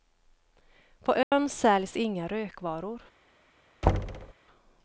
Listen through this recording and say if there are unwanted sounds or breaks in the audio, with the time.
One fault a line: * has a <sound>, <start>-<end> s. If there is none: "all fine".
* has a dropout, 1.2-1.3 s
* has a thud, 3.8-4.3 s